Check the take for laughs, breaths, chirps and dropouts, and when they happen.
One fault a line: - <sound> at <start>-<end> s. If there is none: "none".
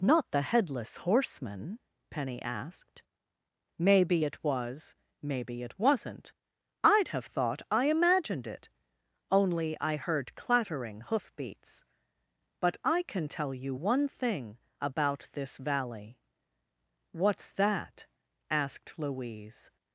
none